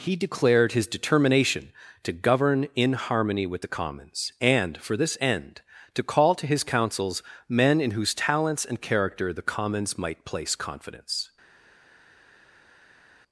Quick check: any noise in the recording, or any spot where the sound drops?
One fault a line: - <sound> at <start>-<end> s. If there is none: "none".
none